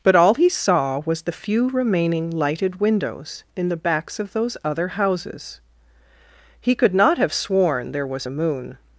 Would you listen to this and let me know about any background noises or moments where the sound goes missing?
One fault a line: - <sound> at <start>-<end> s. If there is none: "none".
none